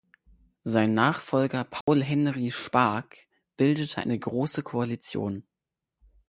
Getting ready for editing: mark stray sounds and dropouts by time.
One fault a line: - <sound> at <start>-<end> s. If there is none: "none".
- dropout at 1.8-1.9 s